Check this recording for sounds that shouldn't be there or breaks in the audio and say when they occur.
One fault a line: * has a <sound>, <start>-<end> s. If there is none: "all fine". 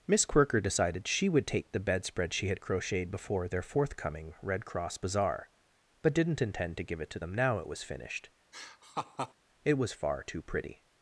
* has a laugh, 8.5-9.3 s